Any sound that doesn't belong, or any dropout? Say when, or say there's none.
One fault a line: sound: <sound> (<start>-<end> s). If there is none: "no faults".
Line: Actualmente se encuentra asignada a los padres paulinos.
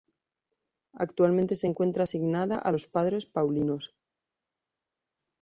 no faults